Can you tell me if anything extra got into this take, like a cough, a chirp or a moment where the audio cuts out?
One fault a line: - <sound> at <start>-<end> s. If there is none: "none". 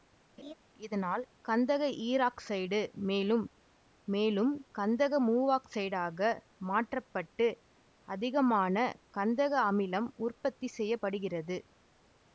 - laugh at 0.4-0.5 s